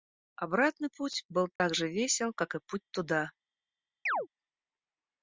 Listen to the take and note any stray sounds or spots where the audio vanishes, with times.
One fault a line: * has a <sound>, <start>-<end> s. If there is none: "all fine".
* has a dropout, 1.6-1.6 s
* has a chirp, 4.1-4.3 s